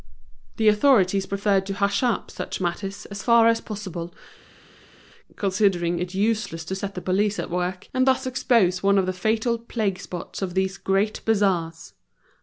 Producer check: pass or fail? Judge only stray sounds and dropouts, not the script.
pass